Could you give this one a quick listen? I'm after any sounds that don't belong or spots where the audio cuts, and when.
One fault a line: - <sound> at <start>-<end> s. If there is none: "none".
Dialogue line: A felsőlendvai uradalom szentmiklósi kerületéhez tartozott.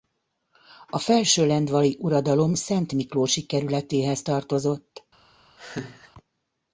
- laugh at 5.6-6.1 s